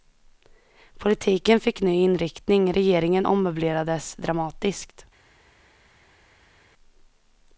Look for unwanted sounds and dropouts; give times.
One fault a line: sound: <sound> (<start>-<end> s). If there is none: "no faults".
no faults